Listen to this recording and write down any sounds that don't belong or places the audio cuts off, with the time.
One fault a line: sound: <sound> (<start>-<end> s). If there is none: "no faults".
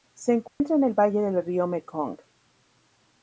sound: dropout (0.5-0.6 s)